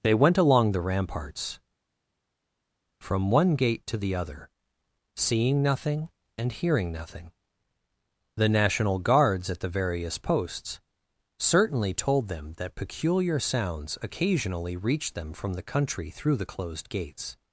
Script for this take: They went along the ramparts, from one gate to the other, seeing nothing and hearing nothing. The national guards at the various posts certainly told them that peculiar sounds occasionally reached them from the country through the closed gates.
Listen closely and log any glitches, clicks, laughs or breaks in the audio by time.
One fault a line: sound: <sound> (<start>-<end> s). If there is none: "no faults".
no faults